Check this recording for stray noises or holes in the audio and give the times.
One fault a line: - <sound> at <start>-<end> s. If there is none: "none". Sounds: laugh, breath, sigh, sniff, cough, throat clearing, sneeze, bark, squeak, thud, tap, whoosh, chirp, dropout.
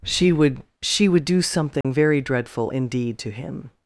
- dropout at 1.8-1.8 s